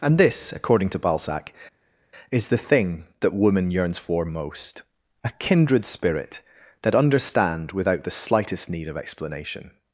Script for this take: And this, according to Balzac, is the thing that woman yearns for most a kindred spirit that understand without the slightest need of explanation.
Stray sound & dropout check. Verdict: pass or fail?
pass